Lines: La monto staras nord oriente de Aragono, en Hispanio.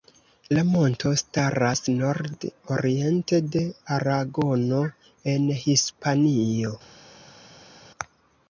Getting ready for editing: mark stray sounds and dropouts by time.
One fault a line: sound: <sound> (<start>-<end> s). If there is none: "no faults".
no faults